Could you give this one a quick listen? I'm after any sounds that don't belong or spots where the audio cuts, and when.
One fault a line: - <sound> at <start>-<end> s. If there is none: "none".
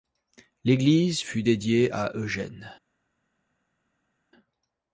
none